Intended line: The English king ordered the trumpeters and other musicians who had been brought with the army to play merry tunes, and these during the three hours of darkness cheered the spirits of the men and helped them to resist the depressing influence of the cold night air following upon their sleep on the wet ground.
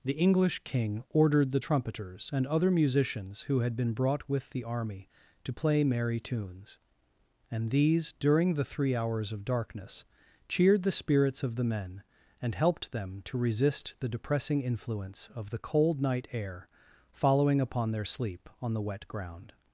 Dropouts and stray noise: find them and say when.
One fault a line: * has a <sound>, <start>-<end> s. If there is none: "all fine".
all fine